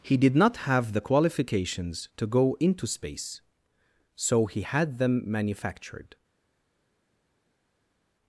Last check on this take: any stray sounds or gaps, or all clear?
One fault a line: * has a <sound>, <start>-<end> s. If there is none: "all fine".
all fine